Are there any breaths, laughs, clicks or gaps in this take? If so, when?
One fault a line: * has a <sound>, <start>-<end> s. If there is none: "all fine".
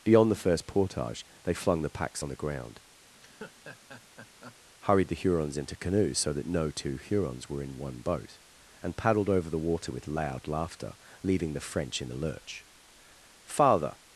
* has a laugh, 3.1-4.6 s